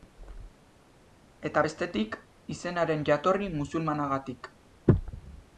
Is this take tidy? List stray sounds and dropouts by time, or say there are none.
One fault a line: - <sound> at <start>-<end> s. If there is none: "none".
none